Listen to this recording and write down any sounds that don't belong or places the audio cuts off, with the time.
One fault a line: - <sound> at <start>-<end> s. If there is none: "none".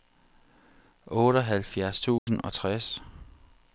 - dropout at 2.2-2.3 s